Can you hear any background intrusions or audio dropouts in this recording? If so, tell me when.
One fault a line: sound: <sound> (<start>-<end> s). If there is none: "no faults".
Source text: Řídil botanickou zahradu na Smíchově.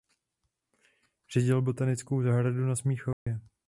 sound: dropout (3.1-3.3 s)